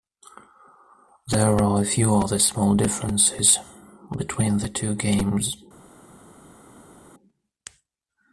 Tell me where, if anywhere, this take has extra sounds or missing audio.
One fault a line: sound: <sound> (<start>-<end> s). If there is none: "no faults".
no faults